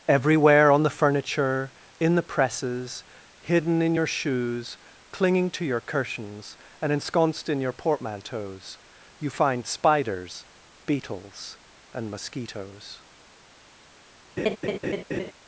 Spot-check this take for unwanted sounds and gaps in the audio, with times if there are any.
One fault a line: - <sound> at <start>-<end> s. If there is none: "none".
- laugh at 14.4-15.3 s